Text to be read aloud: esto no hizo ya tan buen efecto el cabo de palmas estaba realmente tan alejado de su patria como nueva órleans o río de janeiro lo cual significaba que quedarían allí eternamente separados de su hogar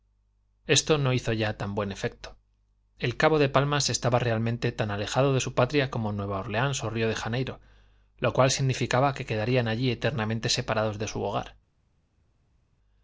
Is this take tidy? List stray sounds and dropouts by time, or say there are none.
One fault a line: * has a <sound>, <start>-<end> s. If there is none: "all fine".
all fine